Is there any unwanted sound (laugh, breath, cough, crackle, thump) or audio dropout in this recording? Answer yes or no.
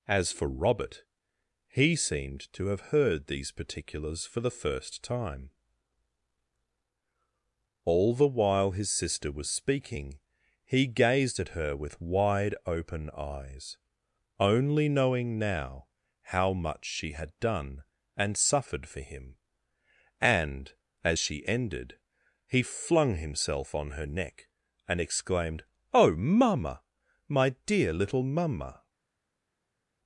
no